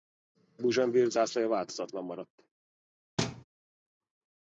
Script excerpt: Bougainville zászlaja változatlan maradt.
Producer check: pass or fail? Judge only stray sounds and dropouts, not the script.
fail